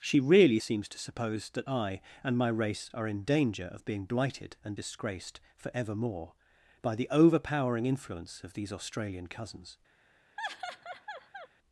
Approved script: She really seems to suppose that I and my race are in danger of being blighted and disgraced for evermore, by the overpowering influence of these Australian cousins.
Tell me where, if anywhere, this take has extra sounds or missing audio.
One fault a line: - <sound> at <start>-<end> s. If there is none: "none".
- laugh at 10.4-11.5 s